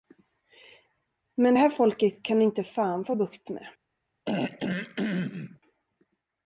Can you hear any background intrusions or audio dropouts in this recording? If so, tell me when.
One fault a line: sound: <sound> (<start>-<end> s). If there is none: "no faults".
sound: throat clearing (4.2-5.6 s)